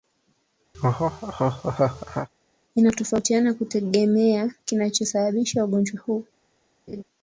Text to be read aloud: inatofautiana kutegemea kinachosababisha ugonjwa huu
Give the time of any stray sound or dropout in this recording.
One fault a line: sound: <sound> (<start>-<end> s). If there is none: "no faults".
sound: laugh (0.7-2.3 s)
sound: laugh (6.9-7.0 s)